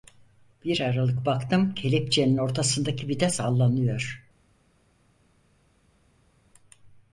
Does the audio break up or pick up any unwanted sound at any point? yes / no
no